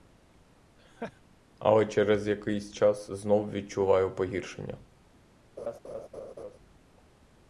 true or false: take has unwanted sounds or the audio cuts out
true